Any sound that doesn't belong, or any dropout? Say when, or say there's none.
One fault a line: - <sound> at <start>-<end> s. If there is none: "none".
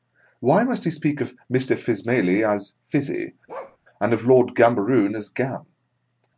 - bark at 3.5-3.8 s